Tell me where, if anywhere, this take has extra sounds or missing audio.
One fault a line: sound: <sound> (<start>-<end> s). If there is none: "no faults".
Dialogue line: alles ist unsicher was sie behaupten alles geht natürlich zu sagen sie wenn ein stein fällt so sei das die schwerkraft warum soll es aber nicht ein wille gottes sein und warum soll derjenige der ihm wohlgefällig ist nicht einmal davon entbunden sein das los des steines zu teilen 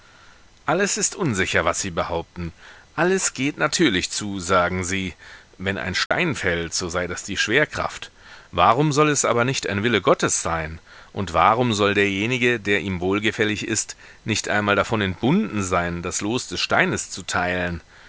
sound: dropout (6.1-6.1 s)